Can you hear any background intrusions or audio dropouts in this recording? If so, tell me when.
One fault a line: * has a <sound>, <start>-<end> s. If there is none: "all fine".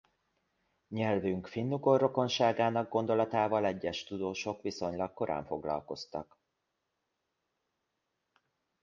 all fine